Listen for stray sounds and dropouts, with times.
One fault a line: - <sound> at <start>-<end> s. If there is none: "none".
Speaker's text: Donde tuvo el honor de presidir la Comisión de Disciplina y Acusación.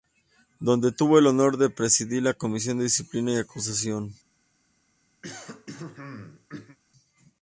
- throat clearing at 5.2-6.8 s